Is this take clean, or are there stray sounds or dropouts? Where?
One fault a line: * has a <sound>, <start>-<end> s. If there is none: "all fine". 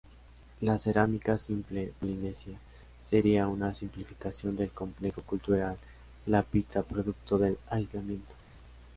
all fine